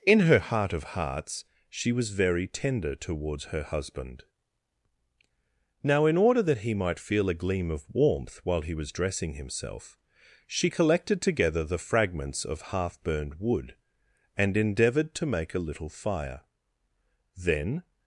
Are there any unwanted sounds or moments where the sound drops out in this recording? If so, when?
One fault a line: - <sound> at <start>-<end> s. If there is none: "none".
none